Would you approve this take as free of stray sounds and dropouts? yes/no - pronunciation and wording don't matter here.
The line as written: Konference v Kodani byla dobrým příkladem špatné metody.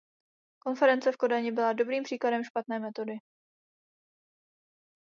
yes